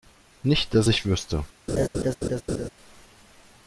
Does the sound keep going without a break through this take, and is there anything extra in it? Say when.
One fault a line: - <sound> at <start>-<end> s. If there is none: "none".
- laugh at 1.7-2.7 s